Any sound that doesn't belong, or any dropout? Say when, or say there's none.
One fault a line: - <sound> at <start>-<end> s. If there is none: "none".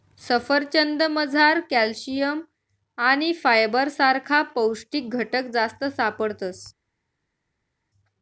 none